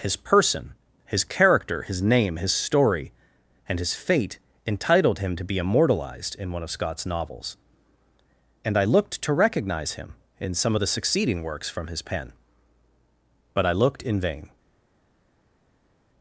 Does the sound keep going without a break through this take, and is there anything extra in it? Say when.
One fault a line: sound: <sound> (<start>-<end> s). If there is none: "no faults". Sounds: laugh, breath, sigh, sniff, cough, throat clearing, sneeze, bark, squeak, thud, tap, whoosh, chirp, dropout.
no faults